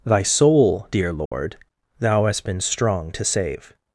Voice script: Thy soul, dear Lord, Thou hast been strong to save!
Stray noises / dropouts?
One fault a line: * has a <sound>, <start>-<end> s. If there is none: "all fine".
* has a dropout, 1.3-1.3 s